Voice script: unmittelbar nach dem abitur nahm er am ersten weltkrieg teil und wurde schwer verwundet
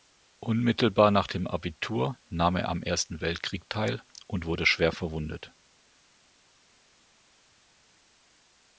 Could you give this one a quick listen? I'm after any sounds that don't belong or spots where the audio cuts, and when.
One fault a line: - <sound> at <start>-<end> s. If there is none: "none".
none